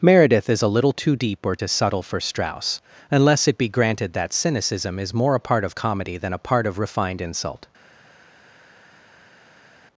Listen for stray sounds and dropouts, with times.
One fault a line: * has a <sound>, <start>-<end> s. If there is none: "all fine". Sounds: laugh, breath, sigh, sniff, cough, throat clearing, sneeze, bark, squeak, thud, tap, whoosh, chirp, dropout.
all fine